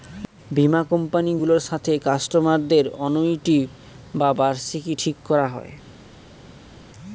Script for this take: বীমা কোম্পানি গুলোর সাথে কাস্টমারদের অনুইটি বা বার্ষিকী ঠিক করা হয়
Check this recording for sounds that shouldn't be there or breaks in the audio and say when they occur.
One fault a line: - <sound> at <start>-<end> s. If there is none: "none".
none